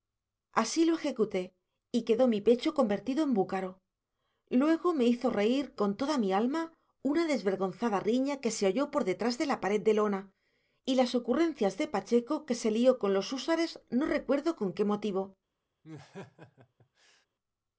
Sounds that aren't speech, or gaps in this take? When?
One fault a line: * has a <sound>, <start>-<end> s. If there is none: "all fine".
* has a laugh, 15.8-17.3 s